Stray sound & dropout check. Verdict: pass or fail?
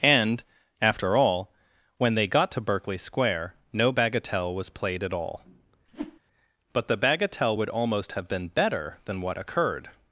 fail